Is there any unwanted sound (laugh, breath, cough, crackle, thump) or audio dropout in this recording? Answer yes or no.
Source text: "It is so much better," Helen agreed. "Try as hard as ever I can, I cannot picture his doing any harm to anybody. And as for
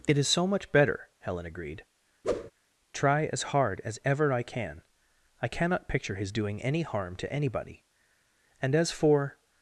yes